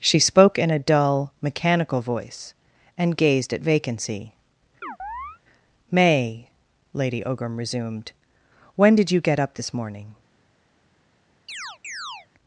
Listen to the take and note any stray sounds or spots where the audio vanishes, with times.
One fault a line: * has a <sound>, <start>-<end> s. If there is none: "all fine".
* has a chirp, 4.8-5.4 s
* has a chirp, 11.5-12.3 s